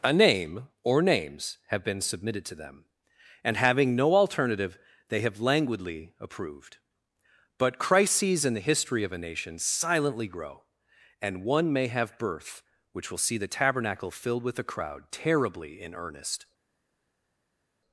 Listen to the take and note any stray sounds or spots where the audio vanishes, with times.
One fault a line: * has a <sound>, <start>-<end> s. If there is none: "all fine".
all fine